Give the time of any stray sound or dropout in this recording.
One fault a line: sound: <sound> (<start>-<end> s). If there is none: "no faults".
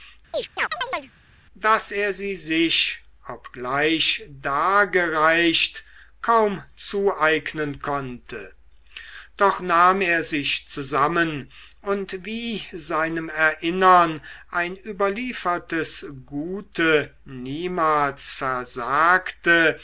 sound: chirp (0.3-1.1 s)